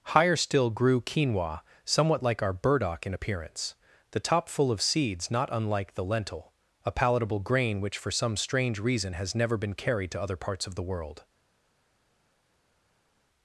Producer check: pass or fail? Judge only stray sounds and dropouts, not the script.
pass